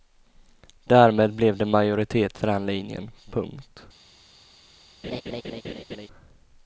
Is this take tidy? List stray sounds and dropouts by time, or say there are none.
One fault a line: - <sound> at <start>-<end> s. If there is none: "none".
- laugh at 5.0-6.1 s